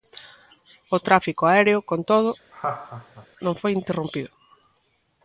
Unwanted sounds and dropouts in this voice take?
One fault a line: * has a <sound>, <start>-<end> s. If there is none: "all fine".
* has a laugh, 2.5-3.3 s